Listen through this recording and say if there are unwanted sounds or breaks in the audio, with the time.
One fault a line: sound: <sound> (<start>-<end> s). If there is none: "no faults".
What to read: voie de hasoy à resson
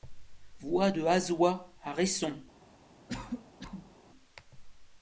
sound: cough (3.1-4.0 s)